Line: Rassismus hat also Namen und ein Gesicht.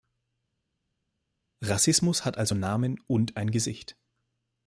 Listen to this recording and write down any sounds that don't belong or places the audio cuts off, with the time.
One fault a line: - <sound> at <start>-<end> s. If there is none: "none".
none